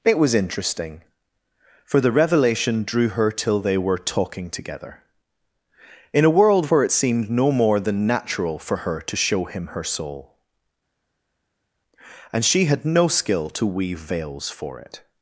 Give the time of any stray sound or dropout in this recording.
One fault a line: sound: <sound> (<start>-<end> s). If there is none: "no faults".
no faults